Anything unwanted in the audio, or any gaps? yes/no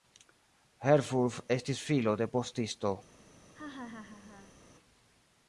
yes